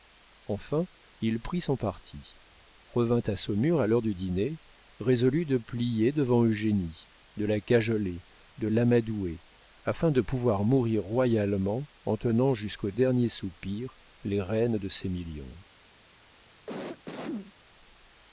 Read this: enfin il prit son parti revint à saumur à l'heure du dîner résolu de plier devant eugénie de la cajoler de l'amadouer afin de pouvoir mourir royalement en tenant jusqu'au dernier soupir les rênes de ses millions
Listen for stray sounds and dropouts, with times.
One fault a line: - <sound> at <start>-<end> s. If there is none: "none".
- cough at 16.7-17.5 s